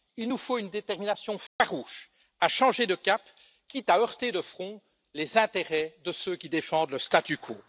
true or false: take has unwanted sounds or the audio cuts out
true